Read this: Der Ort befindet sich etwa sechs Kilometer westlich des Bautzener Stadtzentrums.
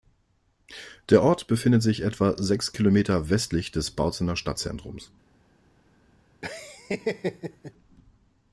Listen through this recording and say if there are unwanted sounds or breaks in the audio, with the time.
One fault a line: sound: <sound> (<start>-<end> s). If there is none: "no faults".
sound: laugh (6.4-7.7 s)